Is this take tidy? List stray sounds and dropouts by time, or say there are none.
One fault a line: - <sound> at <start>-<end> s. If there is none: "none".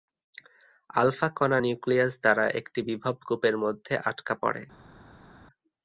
none